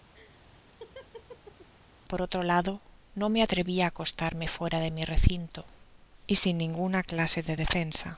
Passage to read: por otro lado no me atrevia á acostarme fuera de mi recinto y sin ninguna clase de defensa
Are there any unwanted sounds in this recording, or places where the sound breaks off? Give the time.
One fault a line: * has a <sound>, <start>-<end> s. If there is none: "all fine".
* has a laugh, 0.1-1.7 s